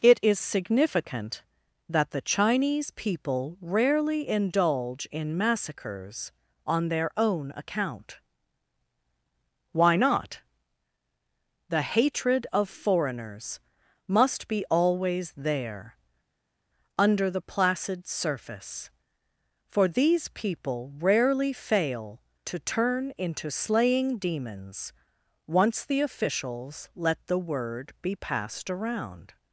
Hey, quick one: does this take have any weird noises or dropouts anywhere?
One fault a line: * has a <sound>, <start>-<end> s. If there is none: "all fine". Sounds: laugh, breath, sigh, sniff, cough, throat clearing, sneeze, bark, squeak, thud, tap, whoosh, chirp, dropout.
all fine